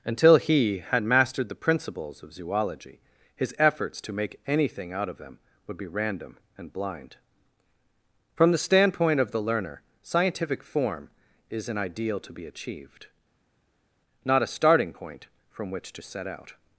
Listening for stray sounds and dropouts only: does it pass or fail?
pass